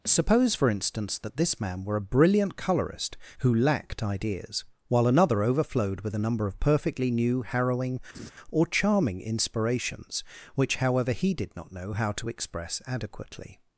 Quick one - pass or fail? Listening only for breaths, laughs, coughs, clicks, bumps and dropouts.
fail